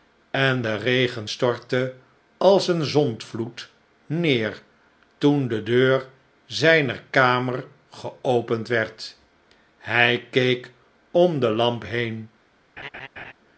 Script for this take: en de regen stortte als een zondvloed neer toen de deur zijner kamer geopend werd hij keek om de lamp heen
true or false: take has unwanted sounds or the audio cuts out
true